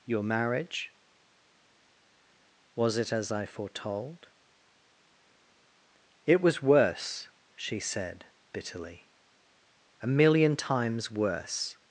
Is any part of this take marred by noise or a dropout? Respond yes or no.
no